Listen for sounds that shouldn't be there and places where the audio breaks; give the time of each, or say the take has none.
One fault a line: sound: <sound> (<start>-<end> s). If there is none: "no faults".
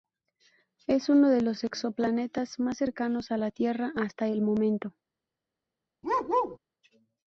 sound: bark (6.0-6.6 s)